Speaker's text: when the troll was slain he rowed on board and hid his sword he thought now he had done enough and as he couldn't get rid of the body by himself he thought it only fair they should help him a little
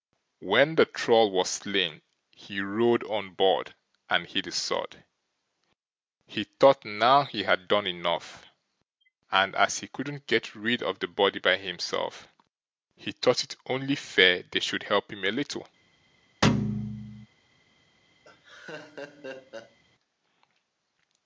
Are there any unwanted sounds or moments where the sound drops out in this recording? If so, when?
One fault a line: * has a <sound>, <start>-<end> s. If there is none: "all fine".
* has a thud, 16.4-17.3 s
* has a laugh, 18.2-19.8 s